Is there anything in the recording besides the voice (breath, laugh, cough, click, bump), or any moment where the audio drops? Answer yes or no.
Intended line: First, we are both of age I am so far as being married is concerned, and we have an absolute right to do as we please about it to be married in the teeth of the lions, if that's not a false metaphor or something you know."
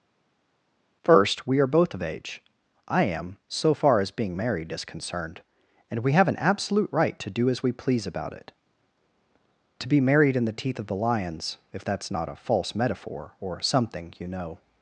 no